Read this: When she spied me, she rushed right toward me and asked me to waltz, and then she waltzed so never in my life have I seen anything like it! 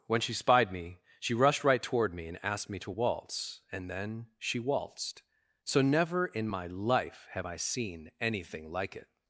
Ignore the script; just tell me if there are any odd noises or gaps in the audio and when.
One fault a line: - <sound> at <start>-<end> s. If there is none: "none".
none